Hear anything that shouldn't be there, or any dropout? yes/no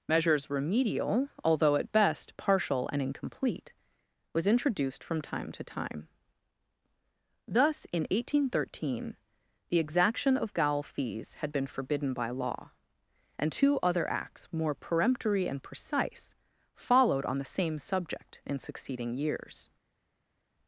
no